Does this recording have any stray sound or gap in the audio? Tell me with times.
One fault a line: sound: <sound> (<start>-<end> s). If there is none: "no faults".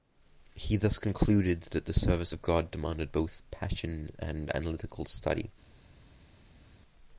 no faults